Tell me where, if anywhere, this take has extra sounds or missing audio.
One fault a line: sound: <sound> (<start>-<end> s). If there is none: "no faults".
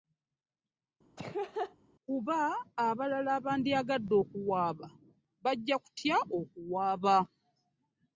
sound: laugh (1.2-1.8 s)